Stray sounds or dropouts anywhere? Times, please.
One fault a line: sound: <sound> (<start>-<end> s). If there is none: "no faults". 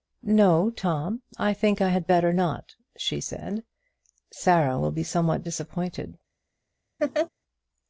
sound: laugh (7.0-7.3 s)